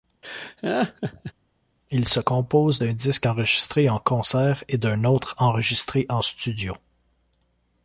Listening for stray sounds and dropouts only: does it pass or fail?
fail